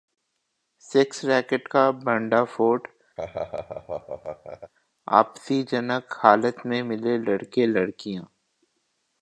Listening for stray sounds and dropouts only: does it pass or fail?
fail